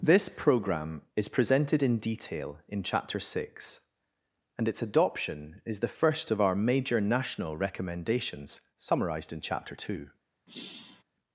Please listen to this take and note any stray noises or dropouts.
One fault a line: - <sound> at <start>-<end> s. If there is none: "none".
- sigh at 10.5-11.0 s